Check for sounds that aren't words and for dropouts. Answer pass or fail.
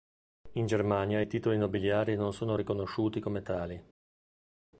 pass